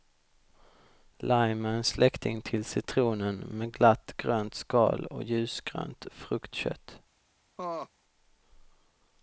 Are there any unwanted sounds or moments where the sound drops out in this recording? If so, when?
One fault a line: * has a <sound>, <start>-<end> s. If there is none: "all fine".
* has a laugh, 7.6-7.9 s